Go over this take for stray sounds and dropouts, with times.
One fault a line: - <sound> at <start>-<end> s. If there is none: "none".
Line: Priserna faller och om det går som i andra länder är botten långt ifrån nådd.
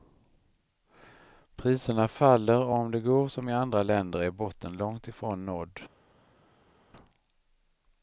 none